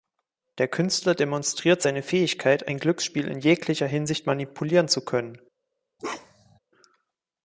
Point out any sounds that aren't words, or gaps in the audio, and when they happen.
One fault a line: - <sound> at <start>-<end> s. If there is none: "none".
- bark at 6.0-6.6 s